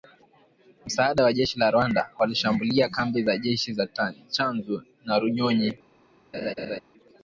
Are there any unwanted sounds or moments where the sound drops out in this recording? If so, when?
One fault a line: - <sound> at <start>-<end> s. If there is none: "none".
- laugh at 6.3-6.8 s